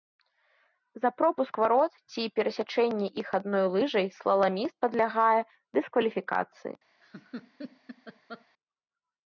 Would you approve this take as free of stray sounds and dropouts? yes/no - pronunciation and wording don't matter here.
no